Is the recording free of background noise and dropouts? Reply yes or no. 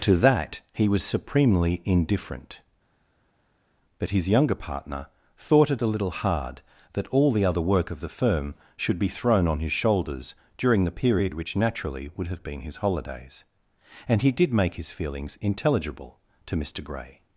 yes